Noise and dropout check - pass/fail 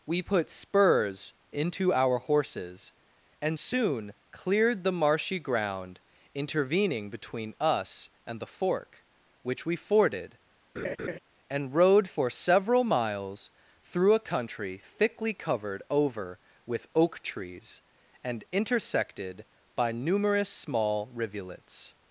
fail